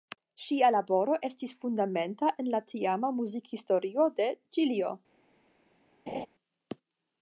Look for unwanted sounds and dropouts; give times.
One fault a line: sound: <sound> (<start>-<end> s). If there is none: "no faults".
sound: laugh (6.1-6.3 s)